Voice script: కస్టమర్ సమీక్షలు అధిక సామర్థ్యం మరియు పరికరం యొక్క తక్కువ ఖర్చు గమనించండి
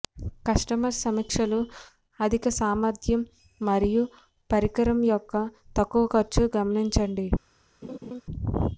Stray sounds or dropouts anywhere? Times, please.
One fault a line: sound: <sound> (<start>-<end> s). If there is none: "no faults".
sound: laugh (7.8-8.2 s)